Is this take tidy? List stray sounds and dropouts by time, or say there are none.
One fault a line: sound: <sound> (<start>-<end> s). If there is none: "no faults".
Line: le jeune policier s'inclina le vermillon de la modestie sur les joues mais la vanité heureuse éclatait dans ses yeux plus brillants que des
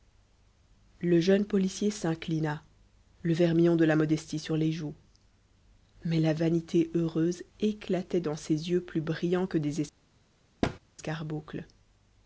sound: thud (10.6-10.8 s)